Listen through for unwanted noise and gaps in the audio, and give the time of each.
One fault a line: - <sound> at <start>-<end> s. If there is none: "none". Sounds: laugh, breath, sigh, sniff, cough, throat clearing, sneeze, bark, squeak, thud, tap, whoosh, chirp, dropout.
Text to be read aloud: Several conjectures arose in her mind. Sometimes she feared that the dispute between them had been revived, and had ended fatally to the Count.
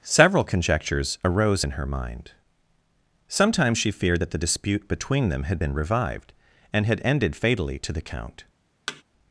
- thud at 8.9-9.0 s